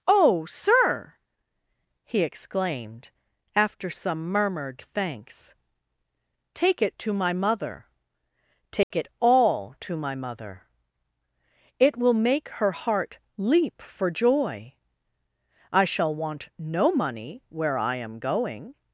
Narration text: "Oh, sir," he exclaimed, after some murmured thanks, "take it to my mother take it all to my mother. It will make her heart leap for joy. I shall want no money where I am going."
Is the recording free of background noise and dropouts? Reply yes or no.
no